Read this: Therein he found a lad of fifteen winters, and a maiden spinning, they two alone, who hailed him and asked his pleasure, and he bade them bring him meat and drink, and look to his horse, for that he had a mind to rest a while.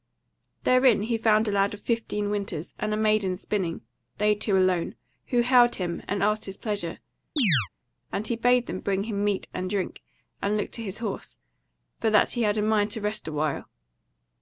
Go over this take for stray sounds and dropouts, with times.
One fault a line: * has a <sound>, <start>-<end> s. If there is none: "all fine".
* has a chirp, 7.4-7.7 s